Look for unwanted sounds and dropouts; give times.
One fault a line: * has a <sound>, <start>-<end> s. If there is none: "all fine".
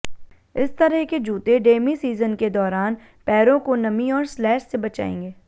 all fine